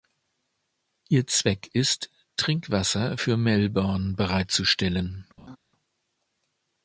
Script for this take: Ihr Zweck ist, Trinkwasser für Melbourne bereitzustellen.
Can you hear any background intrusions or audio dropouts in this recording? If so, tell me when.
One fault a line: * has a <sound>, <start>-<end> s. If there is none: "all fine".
* has a laugh, 5.4-5.6 s